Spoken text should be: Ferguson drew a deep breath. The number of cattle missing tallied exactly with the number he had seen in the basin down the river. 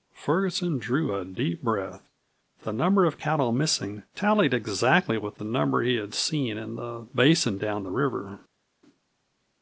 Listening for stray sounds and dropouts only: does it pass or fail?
pass